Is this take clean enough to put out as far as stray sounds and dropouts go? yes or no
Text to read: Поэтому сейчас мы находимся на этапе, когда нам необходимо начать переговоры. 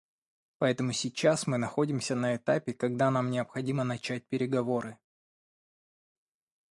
yes